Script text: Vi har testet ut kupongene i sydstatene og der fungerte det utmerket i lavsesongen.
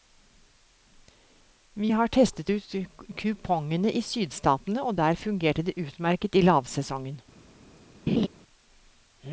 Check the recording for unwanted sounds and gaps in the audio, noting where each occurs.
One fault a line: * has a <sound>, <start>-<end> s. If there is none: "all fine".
* has a laugh, 8.1-8.3 s